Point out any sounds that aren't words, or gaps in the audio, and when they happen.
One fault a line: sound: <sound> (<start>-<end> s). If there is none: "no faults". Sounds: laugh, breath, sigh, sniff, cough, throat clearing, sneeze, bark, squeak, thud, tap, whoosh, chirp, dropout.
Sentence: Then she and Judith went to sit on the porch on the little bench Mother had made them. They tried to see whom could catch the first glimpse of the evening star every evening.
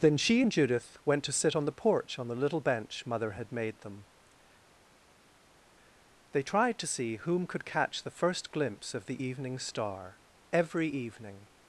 no faults